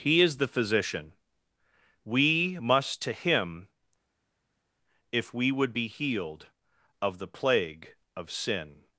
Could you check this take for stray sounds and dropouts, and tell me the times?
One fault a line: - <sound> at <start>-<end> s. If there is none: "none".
none